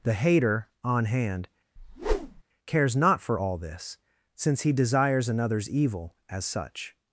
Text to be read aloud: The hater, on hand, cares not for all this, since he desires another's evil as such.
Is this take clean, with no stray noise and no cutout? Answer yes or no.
no